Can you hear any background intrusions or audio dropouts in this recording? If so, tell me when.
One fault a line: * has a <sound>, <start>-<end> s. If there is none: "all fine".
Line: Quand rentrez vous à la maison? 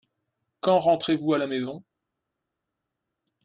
all fine